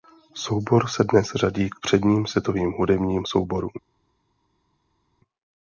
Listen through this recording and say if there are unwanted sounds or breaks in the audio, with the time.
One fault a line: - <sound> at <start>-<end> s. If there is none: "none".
none